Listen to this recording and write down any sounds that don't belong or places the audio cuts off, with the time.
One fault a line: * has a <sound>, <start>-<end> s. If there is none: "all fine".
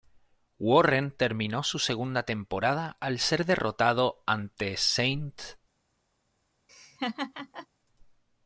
* has a laugh, 6.7-7.7 s